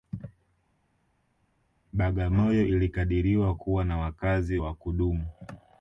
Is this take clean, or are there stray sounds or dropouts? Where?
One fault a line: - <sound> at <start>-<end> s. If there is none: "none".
none